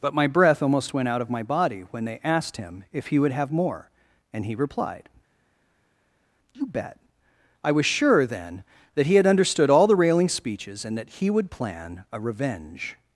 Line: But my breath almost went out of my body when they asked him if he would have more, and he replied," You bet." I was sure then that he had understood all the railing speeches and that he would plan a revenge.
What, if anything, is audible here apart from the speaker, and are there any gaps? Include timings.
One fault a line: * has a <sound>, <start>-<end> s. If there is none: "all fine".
all fine